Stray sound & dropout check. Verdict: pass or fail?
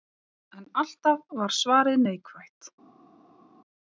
pass